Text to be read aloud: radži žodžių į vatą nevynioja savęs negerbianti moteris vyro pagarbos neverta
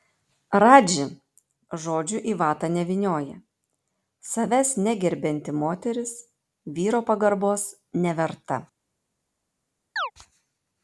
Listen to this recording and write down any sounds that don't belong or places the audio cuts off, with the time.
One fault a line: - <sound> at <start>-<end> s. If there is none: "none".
- chirp at 10.0-10.1 s